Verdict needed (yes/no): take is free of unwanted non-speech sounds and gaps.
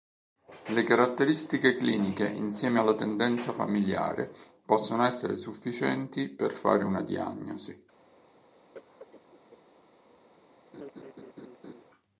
no